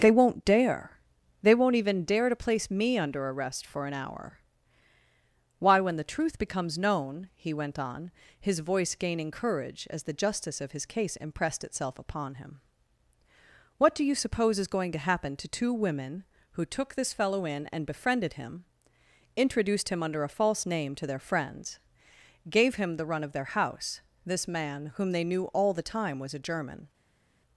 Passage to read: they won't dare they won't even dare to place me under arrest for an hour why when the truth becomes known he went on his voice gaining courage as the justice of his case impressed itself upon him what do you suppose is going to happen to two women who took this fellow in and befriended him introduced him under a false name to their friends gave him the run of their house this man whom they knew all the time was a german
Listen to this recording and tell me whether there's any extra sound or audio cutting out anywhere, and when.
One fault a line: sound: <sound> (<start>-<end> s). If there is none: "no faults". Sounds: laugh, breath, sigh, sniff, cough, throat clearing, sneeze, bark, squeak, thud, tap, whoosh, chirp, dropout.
no faults